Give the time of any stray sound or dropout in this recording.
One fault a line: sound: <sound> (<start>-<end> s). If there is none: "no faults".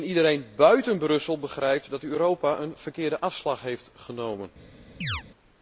sound: chirp (5.0-5.2 s)